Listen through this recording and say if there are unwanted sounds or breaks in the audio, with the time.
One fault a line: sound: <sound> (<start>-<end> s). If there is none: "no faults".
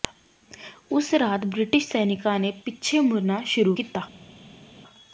no faults